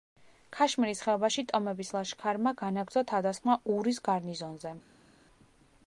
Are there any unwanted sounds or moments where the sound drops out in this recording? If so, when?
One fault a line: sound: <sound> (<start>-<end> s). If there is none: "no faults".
no faults